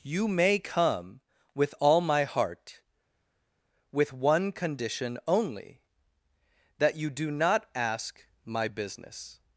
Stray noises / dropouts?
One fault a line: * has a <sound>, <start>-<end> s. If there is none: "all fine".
all fine